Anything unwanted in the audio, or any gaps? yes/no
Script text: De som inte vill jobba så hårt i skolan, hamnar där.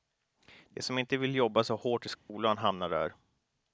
yes